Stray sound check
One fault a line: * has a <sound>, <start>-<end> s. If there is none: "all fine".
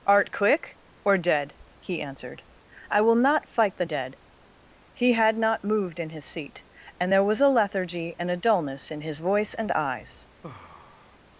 * has a sigh, 10.4-11.2 s